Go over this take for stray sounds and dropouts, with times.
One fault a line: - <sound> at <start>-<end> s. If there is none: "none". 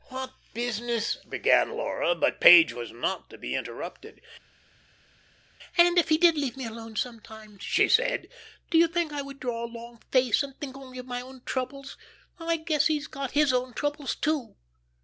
none